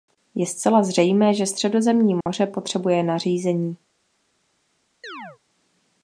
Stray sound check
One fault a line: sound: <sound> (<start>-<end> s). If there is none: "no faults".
sound: dropout (2.2-2.3 s)
sound: chirp (5.0-5.4 s)